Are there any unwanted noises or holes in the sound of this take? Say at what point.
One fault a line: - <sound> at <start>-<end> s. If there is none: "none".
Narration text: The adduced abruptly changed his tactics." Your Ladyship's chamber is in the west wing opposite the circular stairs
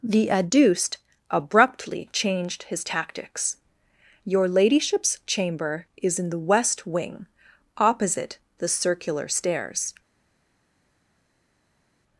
none